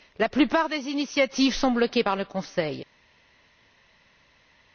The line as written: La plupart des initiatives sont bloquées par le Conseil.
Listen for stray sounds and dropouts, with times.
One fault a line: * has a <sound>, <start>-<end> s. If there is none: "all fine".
all fine